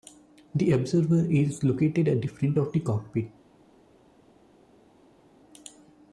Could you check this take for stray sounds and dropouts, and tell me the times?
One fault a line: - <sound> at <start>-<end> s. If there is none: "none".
none